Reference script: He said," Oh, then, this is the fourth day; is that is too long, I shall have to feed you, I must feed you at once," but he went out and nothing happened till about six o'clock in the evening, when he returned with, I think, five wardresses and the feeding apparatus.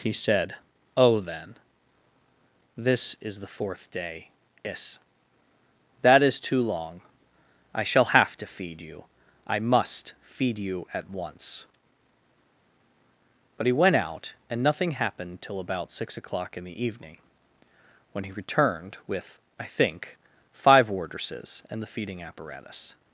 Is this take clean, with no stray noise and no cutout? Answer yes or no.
yes